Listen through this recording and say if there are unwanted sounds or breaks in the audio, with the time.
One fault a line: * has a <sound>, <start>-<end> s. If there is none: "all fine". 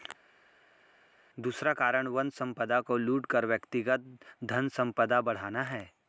all fine